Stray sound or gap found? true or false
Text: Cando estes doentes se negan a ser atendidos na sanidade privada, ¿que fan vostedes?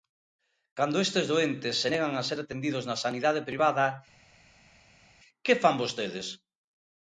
false